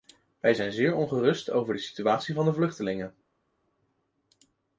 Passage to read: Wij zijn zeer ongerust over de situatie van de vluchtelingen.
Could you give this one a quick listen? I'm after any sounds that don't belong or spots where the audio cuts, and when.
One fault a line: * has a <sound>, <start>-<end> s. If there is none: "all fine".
all fine